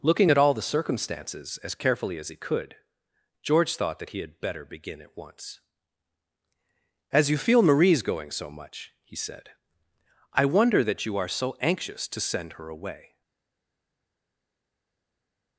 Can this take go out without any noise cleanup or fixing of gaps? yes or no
yes